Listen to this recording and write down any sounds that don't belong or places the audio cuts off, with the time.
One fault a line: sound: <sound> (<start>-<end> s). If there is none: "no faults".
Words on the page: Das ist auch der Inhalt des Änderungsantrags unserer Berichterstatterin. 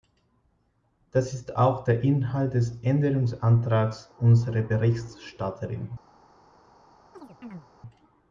sound: chirp (7.1-7.7 s)